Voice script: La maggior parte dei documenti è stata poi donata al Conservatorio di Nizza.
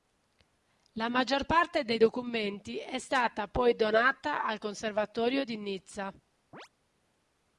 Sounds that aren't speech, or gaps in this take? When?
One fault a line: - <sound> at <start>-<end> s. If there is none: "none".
- chirp at 6.5-6.7 s